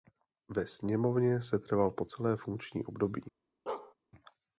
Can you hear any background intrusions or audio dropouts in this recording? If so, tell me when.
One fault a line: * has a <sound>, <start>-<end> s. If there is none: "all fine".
* has a bark, 3.7-3.9 s